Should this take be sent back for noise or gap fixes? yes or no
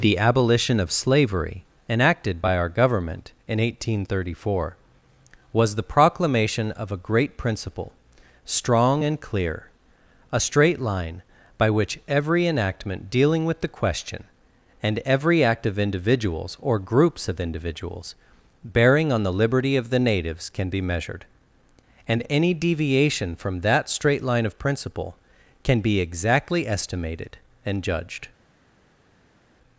no